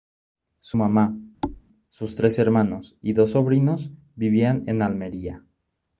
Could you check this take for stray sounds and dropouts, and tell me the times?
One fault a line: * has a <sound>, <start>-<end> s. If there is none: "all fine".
* has a thud, 1.4-1.6 s